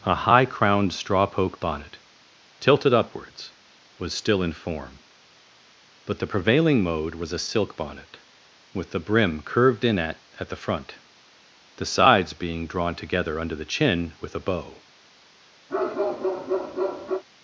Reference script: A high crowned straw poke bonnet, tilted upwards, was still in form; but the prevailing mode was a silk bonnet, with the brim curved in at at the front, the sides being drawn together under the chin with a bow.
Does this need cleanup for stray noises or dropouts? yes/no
yes